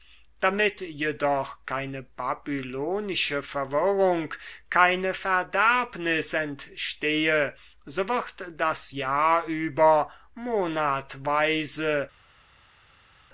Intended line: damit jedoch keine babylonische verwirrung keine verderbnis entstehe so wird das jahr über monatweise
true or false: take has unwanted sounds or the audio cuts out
false